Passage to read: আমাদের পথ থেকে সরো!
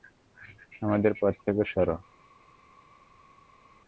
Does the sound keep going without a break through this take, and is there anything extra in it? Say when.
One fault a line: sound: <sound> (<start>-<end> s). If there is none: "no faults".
no faults